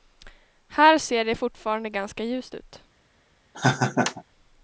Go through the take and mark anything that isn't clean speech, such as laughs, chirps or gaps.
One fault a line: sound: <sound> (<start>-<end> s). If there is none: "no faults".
sound: laugh (3.5-4.2 s)